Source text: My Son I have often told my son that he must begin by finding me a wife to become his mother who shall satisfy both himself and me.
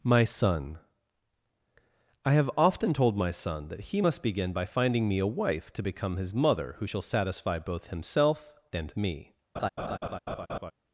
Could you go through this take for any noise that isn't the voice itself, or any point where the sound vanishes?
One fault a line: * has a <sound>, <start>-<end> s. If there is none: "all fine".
* has a laugh, 9.6-10.7 s